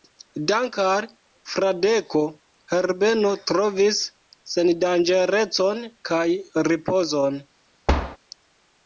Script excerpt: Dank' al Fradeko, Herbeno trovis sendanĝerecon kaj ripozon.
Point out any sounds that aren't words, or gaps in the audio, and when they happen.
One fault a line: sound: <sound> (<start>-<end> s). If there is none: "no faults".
sound: thud (7.9-8.2 s)